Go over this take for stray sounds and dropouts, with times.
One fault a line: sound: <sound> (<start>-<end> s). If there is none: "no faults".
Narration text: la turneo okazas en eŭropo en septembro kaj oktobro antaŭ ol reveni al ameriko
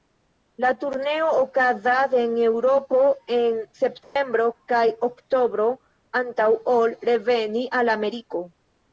sound: dropout (4.0-4.2 s)